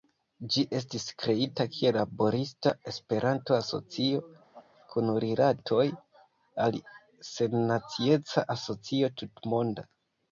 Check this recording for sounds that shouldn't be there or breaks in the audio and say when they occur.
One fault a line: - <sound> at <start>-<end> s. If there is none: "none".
- laugh at 4.5-4.7 s